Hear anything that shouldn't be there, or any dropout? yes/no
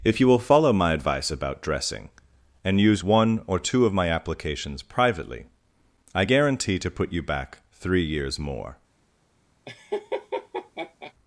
yes